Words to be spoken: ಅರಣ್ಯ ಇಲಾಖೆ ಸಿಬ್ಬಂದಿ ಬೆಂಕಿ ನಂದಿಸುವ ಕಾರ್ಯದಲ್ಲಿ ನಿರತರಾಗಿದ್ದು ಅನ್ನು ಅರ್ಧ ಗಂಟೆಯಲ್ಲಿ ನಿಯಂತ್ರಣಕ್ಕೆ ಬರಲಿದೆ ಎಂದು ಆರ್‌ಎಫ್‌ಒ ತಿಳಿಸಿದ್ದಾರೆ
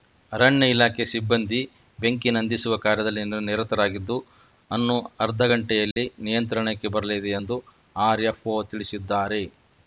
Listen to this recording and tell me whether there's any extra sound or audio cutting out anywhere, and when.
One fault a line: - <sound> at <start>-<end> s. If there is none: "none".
- dropout at 5.9-6.0 s